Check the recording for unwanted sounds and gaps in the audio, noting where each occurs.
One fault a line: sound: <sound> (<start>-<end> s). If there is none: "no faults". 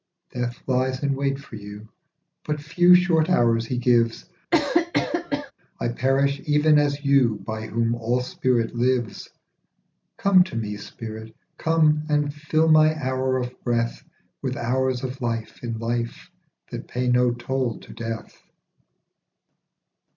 sound: cough (4.5-5.5 s)